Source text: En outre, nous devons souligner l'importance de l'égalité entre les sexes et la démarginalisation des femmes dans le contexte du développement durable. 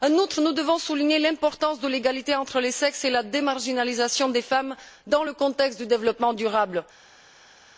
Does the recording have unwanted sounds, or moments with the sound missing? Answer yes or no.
no